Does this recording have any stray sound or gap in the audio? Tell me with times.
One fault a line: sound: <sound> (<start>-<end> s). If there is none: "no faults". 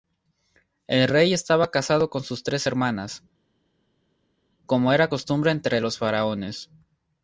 no faults